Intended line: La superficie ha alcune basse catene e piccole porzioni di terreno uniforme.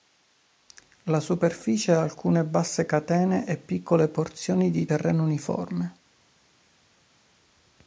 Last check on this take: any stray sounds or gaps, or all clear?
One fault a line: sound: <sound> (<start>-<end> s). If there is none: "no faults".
no faults